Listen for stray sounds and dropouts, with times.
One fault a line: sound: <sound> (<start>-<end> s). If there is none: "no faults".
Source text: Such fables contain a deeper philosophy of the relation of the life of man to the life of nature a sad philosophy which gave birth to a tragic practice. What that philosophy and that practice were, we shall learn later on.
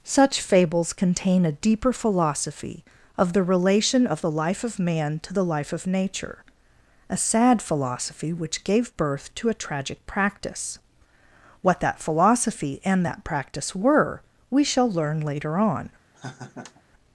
sound: laugh (16.1-16.8 s)